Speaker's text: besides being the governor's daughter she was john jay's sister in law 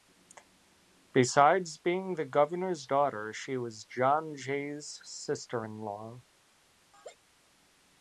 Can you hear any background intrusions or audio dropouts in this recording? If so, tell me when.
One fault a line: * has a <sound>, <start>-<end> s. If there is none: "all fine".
* has a laugh, 6.9-7.2 s